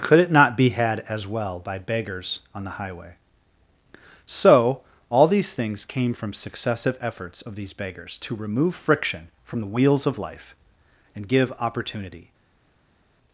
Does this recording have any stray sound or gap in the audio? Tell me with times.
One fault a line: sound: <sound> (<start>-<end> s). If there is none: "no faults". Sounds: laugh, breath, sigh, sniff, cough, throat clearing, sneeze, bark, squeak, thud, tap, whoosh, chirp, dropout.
no faults